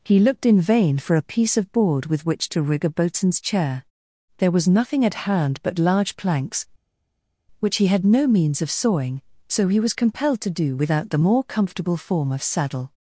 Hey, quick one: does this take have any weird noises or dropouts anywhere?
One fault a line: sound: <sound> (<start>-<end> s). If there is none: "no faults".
no faults